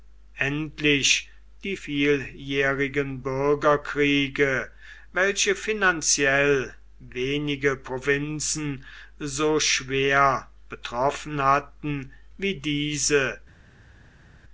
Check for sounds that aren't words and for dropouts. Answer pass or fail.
pass